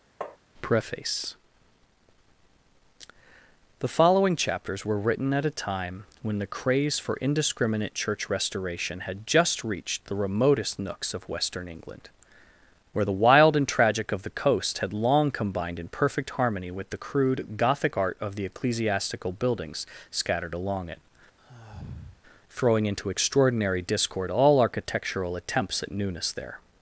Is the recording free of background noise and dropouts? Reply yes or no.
no